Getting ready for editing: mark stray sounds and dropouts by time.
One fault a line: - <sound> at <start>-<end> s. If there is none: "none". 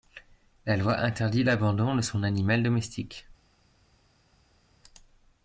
none